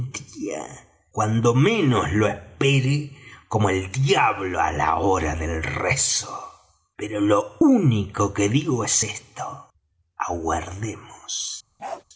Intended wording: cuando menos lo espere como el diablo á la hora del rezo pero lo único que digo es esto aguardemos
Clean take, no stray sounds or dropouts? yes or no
no